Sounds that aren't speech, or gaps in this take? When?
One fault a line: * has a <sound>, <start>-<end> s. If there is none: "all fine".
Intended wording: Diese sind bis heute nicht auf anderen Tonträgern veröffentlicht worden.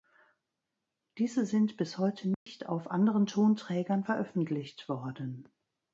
* has a dropout, 2.3-2.5 s